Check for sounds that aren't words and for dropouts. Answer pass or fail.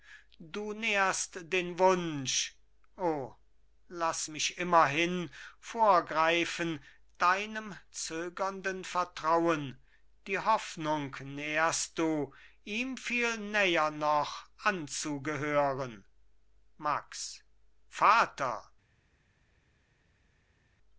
pass